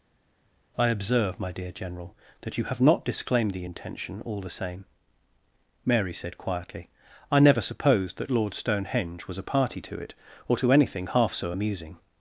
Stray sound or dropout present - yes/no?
no